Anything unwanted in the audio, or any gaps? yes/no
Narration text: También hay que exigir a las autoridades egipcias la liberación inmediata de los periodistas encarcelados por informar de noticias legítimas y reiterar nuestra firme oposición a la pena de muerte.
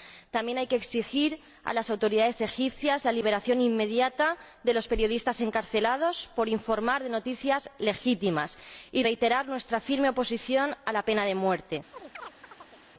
yes